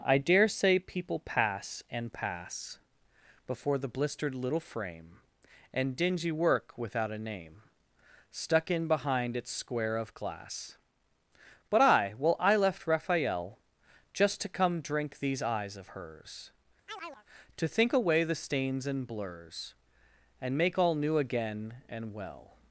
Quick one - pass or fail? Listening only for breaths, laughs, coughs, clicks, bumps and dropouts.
fail